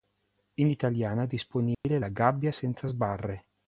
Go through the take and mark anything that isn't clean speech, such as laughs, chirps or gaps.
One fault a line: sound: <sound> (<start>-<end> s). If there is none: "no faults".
sound: dropout (1.7-1.8 s)